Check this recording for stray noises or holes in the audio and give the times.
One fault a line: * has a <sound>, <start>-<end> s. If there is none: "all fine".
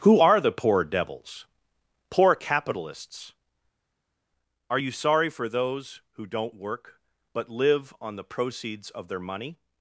all fine